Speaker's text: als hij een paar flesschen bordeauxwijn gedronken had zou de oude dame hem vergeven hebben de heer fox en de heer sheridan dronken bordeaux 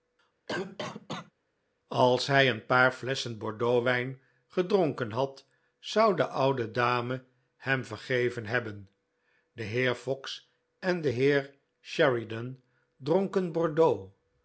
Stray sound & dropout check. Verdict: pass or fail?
fail